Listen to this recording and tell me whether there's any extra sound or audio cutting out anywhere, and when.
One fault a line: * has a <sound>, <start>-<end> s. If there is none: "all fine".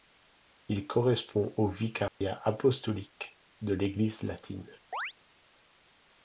* has a dropout, 2.1-2.2 s
* has a chirp, 4.9-5.1 s